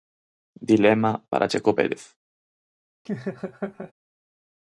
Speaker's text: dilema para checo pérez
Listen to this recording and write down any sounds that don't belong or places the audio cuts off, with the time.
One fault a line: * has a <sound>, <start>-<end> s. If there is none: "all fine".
* has a laugh, 3.1-3.9 s